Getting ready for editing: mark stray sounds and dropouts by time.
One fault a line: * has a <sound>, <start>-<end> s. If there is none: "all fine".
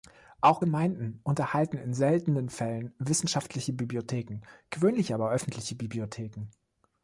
all fine